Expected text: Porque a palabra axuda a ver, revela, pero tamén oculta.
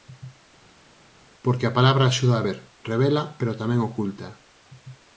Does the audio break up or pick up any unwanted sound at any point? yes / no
no